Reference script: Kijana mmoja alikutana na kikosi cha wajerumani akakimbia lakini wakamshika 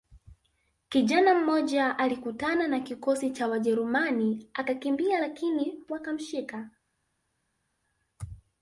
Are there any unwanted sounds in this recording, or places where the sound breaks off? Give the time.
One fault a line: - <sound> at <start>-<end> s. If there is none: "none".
none